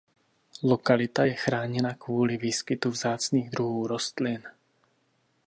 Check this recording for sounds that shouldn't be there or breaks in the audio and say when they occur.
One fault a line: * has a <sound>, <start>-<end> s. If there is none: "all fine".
all fine